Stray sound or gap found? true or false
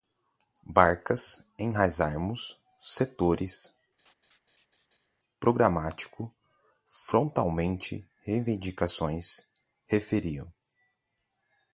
true